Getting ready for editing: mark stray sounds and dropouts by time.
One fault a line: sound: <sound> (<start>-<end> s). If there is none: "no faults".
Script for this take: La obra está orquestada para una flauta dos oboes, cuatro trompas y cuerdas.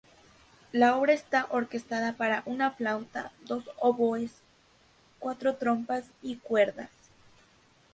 no faults